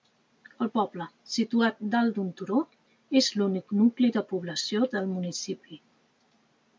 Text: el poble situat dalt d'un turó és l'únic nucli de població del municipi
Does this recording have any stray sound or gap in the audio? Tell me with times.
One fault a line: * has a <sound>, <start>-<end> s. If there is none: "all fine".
all fine